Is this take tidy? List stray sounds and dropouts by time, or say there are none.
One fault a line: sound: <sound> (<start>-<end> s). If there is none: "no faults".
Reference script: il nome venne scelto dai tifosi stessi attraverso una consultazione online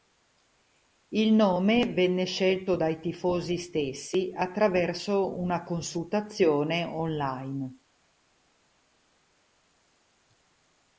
no faults